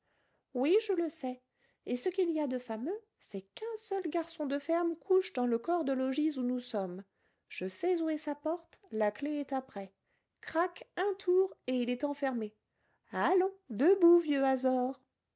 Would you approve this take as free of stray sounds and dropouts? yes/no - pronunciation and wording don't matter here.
yes